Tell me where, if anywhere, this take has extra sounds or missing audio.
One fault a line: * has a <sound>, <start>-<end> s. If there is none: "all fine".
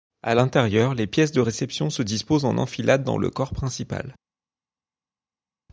all fine